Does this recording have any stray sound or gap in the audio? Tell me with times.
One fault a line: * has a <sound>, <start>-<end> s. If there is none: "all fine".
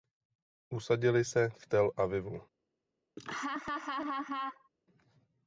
* has a laugh, 3.2-4.7 s